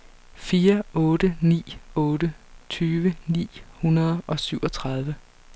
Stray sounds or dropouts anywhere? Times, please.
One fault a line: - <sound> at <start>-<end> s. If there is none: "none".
none